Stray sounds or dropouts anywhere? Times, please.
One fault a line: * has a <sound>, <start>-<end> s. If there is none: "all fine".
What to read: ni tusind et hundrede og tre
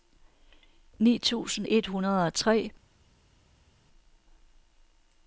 all fine